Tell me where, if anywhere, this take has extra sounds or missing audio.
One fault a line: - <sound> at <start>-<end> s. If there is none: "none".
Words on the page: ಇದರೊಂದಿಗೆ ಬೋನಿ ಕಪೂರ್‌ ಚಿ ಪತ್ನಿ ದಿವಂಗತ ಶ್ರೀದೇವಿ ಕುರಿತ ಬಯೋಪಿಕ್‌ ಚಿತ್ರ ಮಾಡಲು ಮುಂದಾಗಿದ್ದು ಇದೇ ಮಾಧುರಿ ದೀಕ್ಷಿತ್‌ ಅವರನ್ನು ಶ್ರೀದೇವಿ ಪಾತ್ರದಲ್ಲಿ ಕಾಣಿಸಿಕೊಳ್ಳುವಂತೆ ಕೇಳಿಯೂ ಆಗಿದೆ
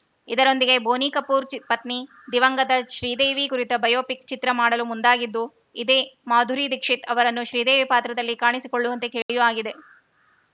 - dropout at 9.2-9.3 s